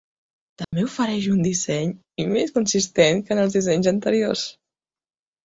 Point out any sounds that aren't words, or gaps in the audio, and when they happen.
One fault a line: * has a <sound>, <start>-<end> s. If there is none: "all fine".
* has a dropout, 0.6-0.7 s